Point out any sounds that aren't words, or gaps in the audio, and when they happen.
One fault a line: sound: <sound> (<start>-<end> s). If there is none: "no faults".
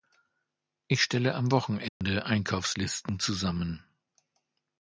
sound: dropout (1.9-2.0 s)